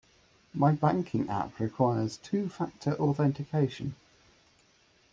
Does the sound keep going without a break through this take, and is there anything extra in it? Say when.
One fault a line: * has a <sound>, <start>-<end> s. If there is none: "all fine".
all fine